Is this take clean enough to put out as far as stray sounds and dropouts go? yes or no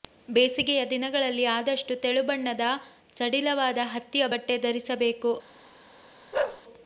no